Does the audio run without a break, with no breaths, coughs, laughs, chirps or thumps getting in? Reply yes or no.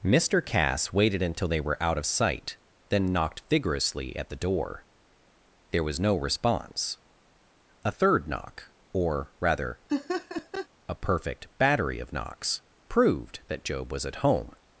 no